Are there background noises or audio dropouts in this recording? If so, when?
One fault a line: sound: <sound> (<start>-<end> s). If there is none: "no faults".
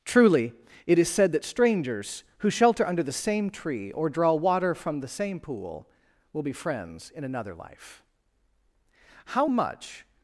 no faults